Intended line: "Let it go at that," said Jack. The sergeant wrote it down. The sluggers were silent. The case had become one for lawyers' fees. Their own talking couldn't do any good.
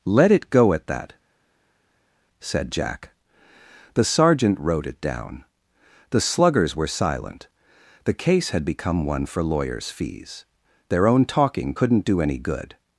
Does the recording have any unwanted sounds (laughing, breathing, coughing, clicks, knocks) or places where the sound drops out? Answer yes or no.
no